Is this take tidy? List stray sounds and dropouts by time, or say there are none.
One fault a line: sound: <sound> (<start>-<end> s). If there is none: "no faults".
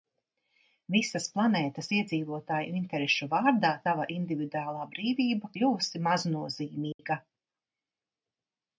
sound: dropout (6.9-7.0 s)